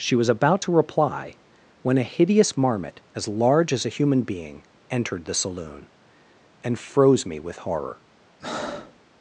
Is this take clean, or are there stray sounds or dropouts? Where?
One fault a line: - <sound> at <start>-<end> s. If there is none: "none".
- breath at 8.4-9.0 s